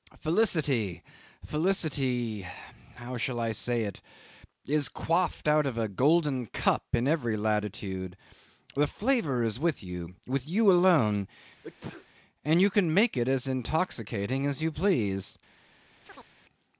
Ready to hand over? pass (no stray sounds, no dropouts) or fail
fail